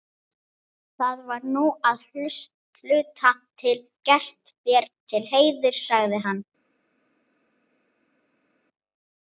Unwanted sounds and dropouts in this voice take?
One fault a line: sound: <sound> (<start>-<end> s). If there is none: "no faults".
no faults